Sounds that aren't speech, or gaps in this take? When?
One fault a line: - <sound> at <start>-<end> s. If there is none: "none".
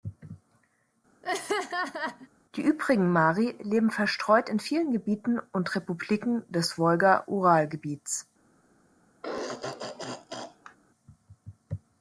- laugh at 1.2-2.3 s
- throat clearing at 9.2-10.8 s